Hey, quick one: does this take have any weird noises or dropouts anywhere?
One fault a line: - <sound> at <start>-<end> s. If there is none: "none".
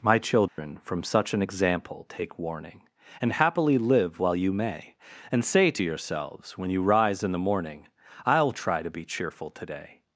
- dropout at 0.5-0.6 s